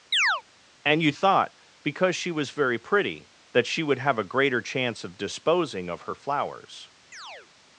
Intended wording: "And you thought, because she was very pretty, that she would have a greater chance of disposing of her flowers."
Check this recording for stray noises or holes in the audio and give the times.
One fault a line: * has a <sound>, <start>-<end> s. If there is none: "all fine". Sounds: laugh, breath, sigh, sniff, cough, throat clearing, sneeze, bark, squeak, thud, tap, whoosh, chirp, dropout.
* has a chirp, 0.1-0.4 s
* has a chirp, 7.1-7.5 s